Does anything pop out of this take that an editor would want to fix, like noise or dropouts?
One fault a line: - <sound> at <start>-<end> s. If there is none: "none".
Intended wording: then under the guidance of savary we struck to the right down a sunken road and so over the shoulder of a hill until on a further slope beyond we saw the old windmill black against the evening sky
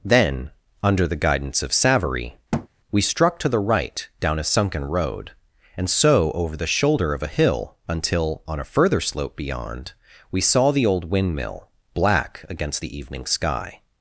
- thud at 2.5-2.7 s